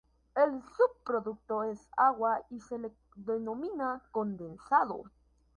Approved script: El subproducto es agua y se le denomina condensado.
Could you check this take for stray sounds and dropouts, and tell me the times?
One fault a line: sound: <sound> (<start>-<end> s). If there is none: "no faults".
no faults